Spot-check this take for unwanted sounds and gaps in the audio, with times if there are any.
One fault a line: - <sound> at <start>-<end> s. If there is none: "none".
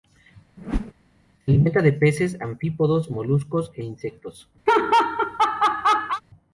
- whoosh at 0.6-0.9 s
- laugh at 4.7-6.2 s